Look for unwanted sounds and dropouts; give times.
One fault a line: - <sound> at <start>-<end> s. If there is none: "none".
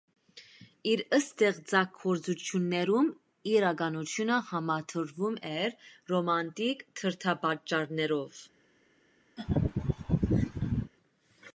- laugh at 9.4-10.9 s